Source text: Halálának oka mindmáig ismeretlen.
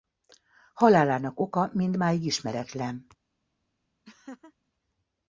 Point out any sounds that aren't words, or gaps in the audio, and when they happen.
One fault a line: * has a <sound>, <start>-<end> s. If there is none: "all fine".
* has a laugh, 4.0-4.5 s